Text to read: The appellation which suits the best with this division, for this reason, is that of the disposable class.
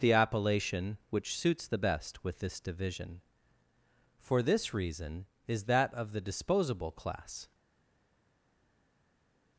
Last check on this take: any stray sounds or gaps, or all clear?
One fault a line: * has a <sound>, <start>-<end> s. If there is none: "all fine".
all fine